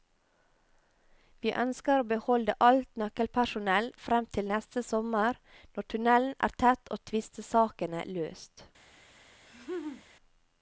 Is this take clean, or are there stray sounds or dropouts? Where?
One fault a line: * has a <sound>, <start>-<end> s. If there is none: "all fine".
* has a laugh, 9.5-10.0 s